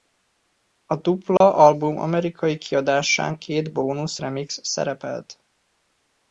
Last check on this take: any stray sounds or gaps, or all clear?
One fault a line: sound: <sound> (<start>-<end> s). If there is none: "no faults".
sound: dropout (1.4-1.4 s)